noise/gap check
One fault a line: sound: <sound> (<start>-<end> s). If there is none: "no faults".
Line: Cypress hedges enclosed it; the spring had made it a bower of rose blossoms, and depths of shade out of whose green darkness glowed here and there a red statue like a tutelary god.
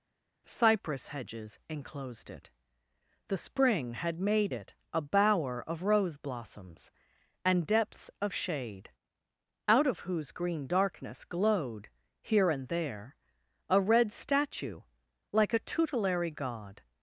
no faults